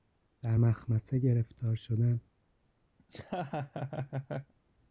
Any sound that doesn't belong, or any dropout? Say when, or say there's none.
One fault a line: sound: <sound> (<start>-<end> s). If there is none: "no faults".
sound: laugh (3.0-4.5 s)